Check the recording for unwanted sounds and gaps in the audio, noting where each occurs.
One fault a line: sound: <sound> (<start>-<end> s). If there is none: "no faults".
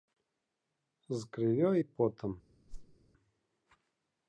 sound: whoosh (2.7-3.0 s)